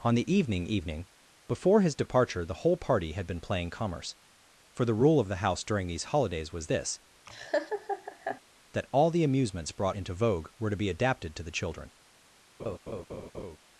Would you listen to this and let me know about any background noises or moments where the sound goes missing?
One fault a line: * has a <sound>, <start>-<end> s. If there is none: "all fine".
* has a laugh, 7.3-8.4 s
* has a laugh, 12.6-13.6 s